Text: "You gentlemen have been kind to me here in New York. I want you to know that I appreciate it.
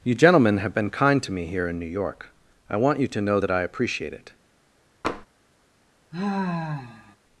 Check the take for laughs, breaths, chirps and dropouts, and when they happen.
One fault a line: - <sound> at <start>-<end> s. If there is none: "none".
- tap at 5.0-5.3 s
- sigh at 6.1-7.2 s